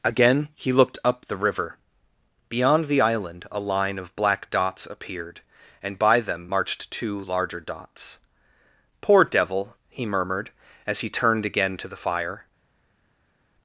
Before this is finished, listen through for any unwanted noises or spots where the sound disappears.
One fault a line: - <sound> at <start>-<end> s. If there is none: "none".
none